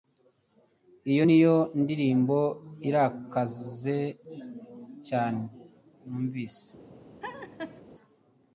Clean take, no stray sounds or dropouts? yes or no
no